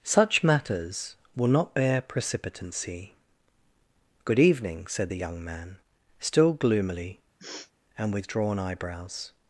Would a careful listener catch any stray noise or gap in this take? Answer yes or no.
yes